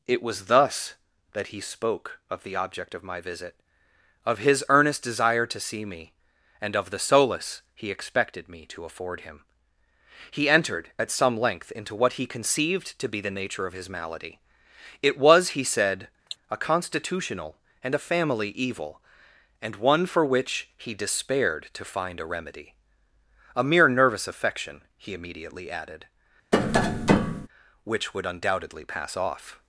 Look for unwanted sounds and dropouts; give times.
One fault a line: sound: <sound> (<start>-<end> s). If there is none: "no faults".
sound: cough (16.3-16.4 s)
sound: tap (26.5-27.5 s)